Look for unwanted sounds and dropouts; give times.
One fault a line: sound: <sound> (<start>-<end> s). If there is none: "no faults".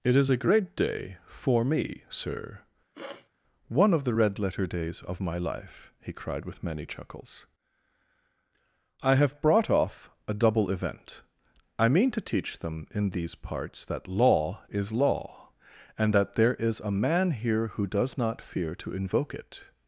sound: sniff (2.9-3.3 s)